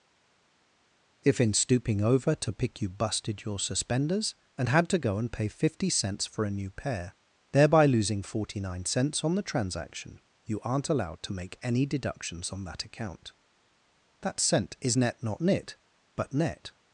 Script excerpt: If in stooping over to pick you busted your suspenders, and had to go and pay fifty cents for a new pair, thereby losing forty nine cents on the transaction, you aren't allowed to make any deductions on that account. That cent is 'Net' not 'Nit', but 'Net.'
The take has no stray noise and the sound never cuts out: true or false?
true